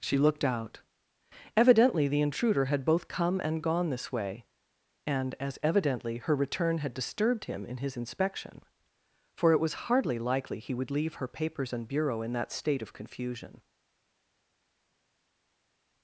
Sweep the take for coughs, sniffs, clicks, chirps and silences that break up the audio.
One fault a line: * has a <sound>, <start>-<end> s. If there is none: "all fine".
all fine